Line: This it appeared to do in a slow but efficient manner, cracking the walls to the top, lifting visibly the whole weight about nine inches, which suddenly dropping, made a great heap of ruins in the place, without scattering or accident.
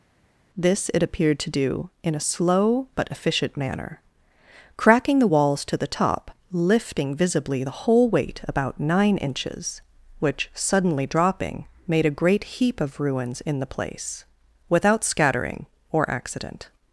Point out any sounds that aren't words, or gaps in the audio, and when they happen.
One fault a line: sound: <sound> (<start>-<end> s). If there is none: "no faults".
no faults